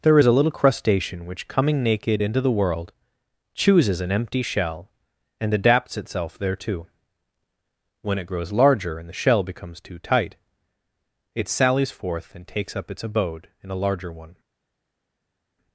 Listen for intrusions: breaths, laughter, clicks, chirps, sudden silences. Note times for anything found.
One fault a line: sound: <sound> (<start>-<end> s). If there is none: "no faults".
no faults